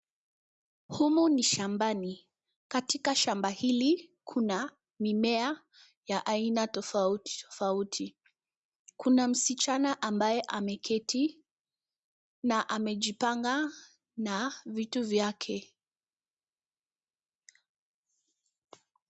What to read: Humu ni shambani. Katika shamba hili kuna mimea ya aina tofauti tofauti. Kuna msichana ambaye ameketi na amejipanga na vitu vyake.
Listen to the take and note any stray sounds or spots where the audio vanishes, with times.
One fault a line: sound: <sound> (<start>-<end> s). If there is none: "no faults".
no faults